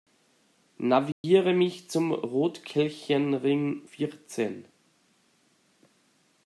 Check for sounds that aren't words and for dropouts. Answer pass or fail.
fail